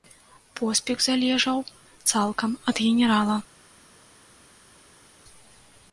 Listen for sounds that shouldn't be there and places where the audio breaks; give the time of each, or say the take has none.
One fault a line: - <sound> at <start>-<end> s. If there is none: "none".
none